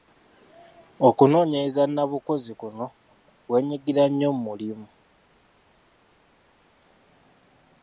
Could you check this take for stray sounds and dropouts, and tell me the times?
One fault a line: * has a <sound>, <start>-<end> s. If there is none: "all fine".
all fine